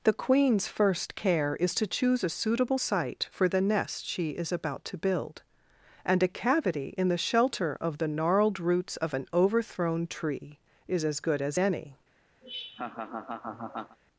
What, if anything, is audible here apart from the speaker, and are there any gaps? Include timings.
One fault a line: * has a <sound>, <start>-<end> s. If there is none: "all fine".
* has a laugh, 12.4-14.0 s